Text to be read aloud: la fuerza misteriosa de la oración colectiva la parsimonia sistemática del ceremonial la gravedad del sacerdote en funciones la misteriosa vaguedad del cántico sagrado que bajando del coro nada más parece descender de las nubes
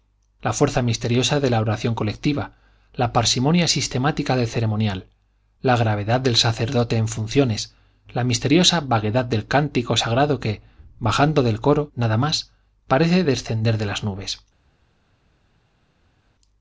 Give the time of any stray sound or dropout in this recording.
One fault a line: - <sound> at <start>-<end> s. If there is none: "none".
none